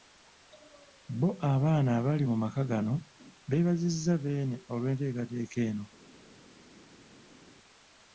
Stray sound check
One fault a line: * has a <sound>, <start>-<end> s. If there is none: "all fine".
all fine